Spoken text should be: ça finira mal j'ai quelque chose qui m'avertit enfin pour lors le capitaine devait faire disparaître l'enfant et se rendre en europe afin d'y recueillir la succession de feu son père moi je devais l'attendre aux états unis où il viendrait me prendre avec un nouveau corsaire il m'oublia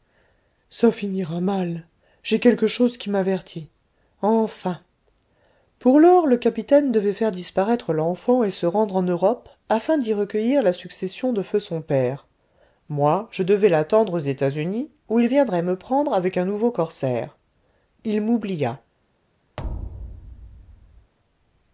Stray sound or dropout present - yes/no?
yes